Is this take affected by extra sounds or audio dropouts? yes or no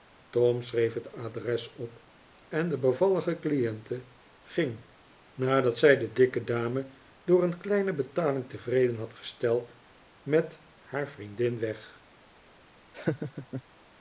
yes